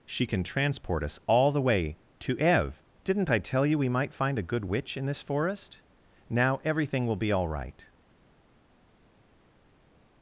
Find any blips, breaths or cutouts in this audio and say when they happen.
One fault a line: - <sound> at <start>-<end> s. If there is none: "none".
none